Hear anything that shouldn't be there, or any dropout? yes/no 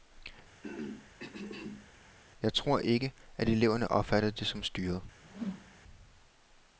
yes